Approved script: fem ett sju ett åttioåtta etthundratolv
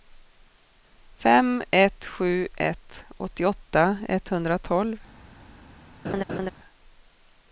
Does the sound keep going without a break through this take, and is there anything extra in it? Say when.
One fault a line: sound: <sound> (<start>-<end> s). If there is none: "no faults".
sound: laugh (6.0-6.5 s)